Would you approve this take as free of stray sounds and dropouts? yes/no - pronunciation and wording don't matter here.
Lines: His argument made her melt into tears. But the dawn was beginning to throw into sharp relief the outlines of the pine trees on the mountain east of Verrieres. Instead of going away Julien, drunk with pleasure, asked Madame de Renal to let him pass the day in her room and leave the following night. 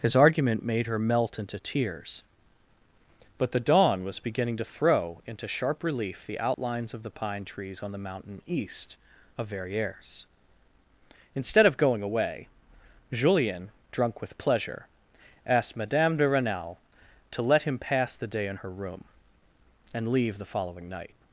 no